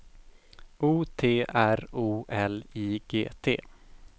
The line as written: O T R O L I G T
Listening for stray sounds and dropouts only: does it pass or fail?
pass